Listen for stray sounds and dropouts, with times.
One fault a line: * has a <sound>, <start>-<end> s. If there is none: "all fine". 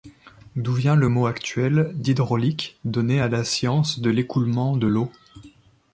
all fine